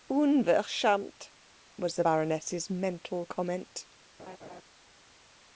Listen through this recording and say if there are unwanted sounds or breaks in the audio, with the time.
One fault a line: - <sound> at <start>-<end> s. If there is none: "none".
- laugh at 4.2-4.6 s